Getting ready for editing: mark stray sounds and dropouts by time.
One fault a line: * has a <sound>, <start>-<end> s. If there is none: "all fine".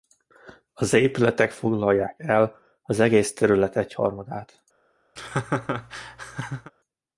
* has a laugh, 5.2-6.7 s